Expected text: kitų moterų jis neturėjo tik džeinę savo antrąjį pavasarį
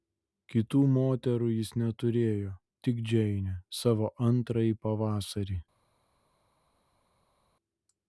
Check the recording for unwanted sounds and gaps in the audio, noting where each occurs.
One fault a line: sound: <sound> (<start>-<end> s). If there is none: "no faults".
no faults